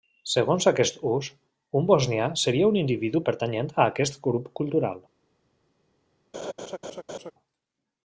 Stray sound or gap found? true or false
true